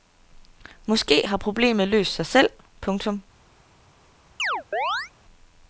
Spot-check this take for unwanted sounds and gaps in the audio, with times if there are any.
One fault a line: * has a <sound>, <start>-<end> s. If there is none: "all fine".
* has a chirp, 4.4-5.1 s